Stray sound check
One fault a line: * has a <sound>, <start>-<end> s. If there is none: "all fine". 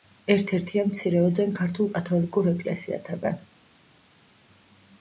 all fine